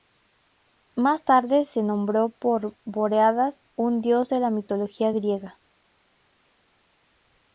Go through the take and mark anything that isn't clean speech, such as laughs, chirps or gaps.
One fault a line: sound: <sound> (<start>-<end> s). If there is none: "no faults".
no faults